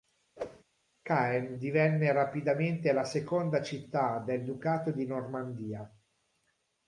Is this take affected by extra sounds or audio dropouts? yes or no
yes